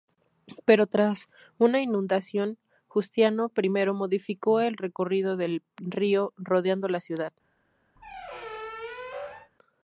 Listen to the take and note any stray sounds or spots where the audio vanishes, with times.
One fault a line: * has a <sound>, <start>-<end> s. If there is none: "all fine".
* has a squeak, 8.0-9.5 s